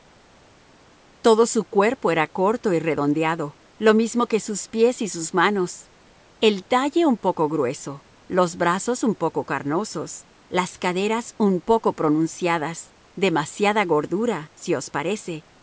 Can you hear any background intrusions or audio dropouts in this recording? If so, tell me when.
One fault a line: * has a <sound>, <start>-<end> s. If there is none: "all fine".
all fine